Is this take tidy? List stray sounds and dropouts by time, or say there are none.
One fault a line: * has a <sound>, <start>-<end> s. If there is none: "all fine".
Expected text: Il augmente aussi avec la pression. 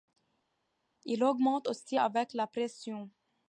all fine